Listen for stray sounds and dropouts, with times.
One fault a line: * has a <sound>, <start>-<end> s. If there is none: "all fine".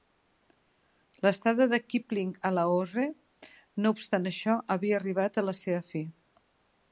all fine